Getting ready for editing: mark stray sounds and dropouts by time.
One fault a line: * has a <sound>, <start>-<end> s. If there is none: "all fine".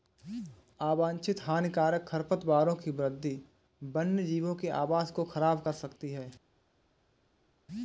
all fine